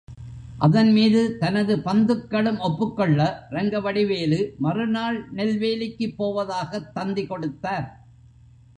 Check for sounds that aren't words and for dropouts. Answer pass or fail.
pass